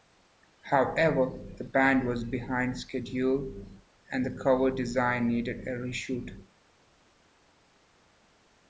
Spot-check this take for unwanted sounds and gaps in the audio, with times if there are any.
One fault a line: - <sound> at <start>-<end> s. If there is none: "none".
none